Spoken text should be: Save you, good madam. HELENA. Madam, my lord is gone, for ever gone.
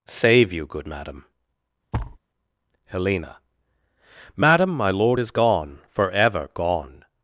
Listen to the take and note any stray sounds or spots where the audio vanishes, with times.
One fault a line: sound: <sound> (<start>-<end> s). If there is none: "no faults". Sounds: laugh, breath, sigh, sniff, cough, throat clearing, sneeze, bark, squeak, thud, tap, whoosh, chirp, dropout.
sound: thud (1.9-2.2 s)